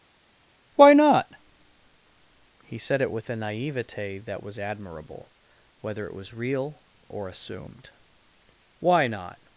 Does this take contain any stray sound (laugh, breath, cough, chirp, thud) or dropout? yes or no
no